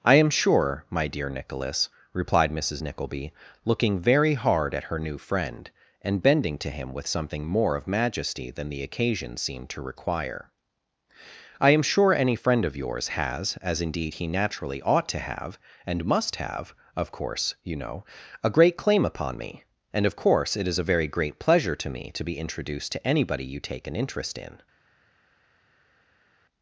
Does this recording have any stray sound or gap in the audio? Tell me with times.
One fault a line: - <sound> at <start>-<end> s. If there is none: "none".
none